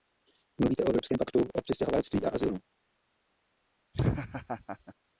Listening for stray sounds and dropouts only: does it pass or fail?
fail